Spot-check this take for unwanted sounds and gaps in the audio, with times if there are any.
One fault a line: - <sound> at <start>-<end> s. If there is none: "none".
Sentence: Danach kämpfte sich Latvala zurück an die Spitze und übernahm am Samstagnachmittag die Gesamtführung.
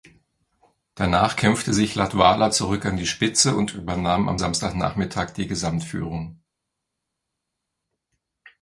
none